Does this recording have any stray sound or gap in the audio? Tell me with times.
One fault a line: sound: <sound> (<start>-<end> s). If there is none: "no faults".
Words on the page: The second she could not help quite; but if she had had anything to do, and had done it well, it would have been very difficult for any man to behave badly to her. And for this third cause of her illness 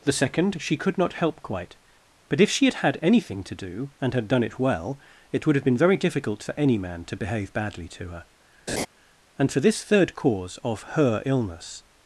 sound: laugh (8.7-8.9 s)